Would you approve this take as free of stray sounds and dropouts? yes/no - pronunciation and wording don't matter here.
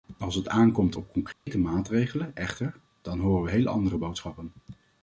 no